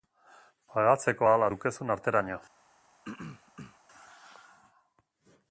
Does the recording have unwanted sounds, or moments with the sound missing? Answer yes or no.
yes